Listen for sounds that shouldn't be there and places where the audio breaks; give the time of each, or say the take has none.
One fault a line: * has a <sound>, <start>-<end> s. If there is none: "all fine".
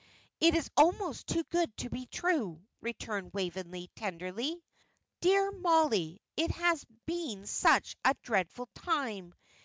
all fine